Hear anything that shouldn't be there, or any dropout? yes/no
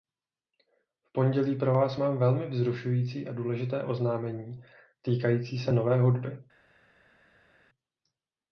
no